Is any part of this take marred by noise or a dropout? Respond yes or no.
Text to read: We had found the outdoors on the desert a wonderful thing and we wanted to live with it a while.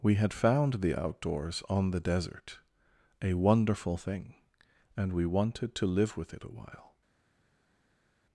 no